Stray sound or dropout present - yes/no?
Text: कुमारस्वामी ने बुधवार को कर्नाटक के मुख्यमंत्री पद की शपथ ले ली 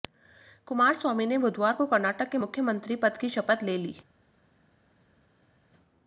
no